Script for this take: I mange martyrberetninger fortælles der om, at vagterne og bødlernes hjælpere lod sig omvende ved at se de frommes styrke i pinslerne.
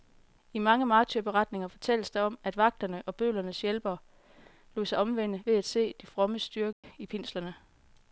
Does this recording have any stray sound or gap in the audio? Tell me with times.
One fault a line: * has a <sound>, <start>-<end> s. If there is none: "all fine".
* has a dropout, 6.7-6.8 s